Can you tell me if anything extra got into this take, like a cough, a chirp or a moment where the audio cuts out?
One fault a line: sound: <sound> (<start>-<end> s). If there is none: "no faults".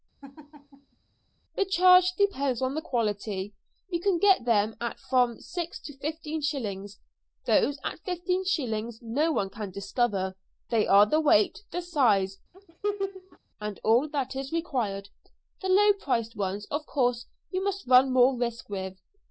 sound: laugh (0.2-1.0 s)
sound: laugh (12.5-13.4 s)